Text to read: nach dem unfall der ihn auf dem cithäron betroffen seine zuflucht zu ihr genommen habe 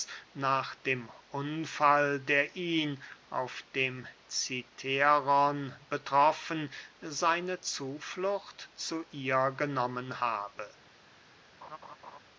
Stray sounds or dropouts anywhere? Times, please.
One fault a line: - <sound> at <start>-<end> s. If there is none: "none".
- laugh at 11.6-12.2 s